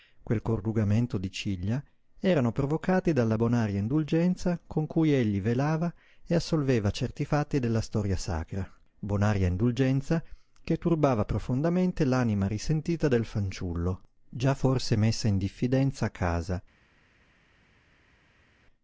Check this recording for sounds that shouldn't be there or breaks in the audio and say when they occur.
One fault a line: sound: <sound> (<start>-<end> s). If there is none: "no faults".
no faults